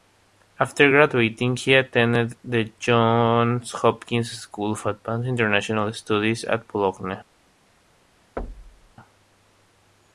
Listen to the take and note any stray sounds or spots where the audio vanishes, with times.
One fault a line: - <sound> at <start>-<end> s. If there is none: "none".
- thud at 8.4-8.9 s